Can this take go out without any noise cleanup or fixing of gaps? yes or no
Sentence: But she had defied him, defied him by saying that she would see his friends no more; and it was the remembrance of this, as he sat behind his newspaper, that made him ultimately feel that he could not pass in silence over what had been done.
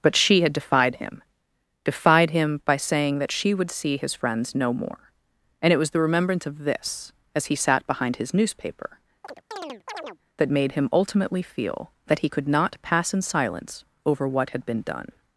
no